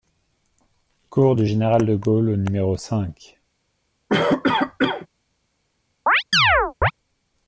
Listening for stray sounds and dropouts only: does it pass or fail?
fail